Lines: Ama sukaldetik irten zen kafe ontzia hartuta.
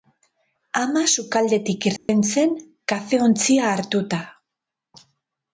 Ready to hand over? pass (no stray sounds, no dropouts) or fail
fail